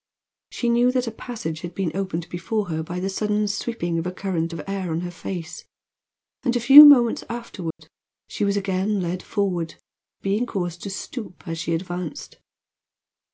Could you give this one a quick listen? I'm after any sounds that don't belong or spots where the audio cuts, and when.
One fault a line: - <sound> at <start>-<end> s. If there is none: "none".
- dropout at 7.7-7.8 s